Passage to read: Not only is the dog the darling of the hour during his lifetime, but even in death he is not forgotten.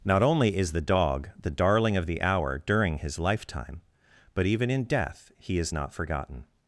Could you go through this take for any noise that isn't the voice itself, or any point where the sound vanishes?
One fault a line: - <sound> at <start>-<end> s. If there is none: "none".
none